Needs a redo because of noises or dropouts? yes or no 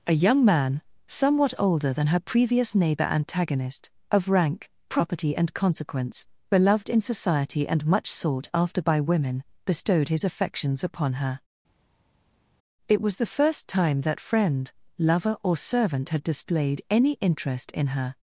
no